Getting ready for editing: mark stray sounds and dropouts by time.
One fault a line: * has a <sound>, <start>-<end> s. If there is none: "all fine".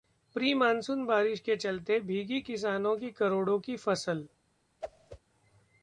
* has a whoosh, 4.8-5.2 s